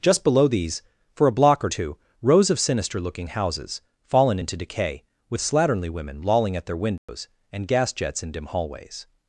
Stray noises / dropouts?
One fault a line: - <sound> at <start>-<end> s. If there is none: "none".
- dropout at 7.0-7.1 s